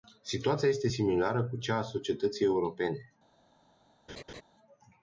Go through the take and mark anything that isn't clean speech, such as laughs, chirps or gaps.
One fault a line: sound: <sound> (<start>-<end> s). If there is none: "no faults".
sound: laugh (4.1-4.4 s)